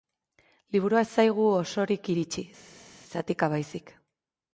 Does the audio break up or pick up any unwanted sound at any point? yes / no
no